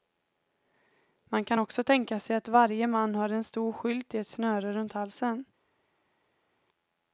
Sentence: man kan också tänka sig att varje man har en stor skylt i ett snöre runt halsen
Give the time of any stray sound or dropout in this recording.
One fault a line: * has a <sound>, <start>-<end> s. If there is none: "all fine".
all fine